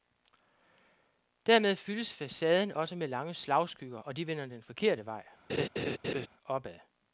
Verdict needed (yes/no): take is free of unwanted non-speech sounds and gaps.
no